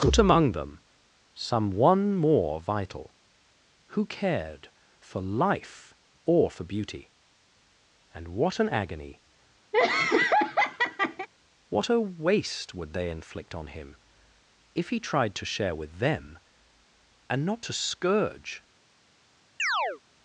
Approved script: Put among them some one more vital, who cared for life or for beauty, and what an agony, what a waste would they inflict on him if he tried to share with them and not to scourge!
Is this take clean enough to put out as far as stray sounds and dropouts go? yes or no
no